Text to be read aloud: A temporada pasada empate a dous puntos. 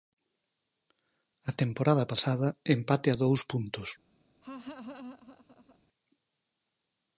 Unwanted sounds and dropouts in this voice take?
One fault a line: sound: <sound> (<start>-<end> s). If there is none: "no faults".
sound: laugh (4.4-5.8 s)